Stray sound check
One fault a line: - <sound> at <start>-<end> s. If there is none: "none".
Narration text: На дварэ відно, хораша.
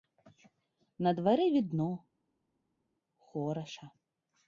none